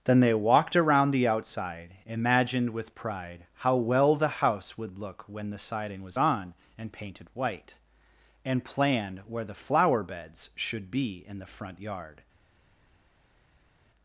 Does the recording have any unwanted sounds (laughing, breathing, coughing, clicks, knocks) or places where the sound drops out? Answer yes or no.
no